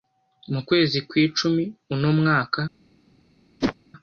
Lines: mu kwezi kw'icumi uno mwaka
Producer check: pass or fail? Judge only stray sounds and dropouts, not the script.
fail